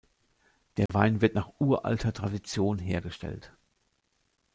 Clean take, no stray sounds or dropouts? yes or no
no